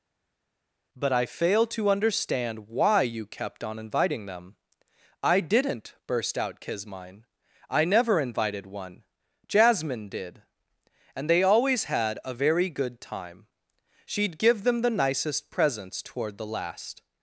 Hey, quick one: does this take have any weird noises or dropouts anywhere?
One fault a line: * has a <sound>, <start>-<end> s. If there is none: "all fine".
all fine